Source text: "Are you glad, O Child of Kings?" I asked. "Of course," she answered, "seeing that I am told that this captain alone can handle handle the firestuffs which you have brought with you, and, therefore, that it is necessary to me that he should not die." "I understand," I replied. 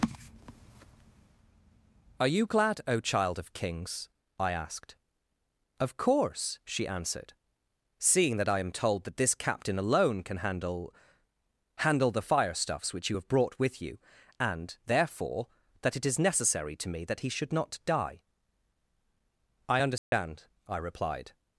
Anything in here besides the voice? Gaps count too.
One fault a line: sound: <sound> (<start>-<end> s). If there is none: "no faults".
sound: dropout (20.0-20.1 s)